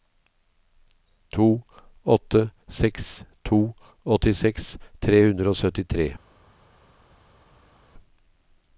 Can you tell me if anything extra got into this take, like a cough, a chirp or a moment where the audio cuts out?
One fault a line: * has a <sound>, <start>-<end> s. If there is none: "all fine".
all fine